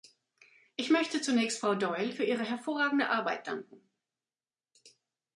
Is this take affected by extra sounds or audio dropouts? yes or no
no